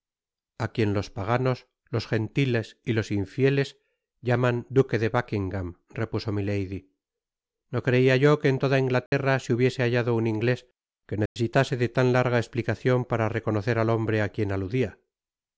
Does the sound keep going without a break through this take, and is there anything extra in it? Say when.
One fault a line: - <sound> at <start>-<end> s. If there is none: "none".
- dropout at 9.1-9.1 s
- dropout at 11.3-11.4 s